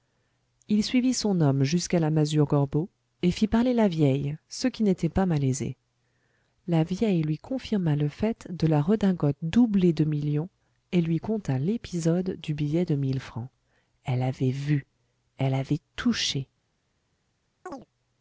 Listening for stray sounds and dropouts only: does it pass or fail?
fail